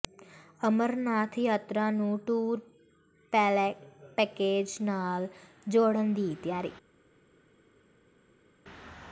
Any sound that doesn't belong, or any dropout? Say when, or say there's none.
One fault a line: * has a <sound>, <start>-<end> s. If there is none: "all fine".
all fine